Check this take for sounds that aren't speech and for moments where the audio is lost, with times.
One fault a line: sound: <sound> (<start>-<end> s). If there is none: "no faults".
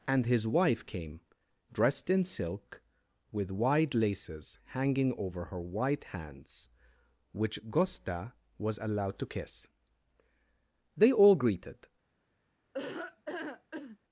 sound: laugh (12.7-14.0 s)